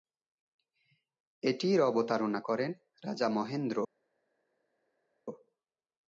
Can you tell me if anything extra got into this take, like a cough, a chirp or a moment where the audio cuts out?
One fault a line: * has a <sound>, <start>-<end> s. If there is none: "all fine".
all fine